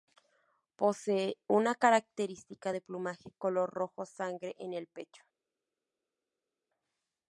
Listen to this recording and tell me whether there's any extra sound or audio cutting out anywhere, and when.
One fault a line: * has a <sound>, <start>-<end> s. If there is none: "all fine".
all fine